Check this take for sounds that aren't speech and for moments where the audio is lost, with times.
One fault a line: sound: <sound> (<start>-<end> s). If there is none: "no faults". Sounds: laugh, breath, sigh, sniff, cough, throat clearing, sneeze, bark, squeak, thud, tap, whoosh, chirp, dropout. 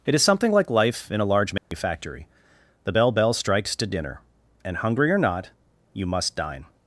sound: dropout (1.6-1.7 s)